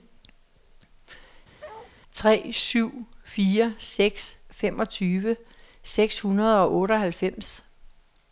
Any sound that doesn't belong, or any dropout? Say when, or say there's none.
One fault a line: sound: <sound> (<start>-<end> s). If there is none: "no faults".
sound: bark (1.6-1.9 s)